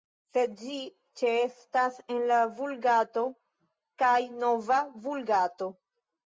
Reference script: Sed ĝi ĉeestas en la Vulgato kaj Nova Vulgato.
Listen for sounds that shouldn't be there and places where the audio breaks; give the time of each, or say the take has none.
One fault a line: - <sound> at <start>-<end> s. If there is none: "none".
none